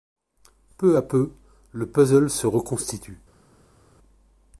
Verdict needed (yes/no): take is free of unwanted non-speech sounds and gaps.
yes